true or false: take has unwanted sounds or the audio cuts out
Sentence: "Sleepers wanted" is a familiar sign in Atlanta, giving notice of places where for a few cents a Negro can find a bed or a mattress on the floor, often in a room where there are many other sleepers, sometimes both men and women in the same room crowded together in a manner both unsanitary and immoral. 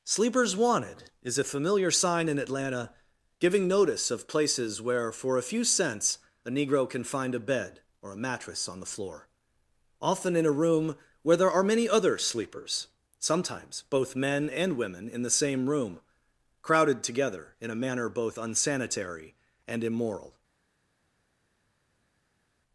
false